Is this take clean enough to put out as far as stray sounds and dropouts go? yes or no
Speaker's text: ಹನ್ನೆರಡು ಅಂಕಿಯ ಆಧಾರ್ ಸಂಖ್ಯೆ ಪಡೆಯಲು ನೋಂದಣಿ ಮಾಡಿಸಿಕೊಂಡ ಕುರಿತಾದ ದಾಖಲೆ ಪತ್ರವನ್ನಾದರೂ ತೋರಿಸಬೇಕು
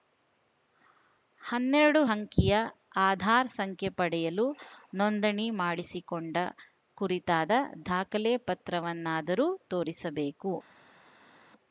yes